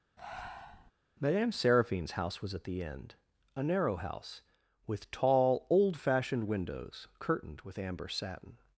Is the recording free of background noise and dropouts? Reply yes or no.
no